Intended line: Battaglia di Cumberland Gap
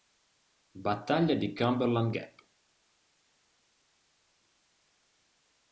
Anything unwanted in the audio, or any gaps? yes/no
no